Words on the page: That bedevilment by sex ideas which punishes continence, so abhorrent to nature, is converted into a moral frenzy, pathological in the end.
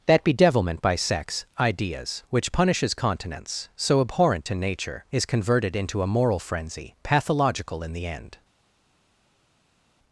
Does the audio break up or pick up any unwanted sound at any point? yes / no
no